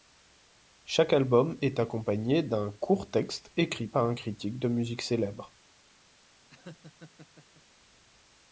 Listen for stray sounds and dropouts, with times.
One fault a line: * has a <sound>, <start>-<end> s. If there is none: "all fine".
* has a laugh, 6.5-7.6 s